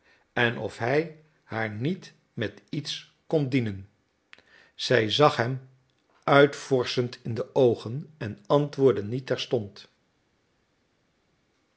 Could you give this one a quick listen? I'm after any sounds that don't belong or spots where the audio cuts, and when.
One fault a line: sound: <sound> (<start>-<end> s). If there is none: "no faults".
no faults